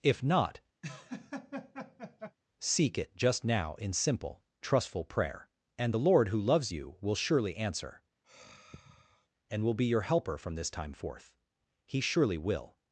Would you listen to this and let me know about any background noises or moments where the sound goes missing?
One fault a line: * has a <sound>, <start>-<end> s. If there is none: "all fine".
* has a laugh, 0.8-2.4 s
* has a sigh, 8.2-9.3 s